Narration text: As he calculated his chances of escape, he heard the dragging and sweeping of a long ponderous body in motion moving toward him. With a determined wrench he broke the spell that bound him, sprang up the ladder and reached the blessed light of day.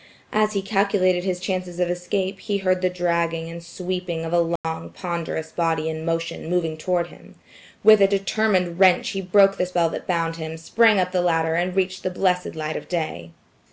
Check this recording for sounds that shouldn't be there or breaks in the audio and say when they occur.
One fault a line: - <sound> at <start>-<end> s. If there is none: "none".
- dropout at 4.6-4.6 s